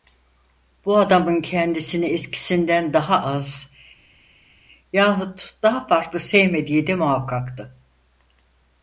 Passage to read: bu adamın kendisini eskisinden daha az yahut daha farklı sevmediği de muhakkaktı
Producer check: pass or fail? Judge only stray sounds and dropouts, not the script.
pass